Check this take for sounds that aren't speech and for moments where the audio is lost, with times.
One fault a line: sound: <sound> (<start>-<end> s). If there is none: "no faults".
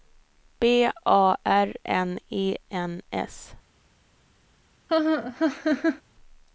sound: laugh (4.9-6.0 s)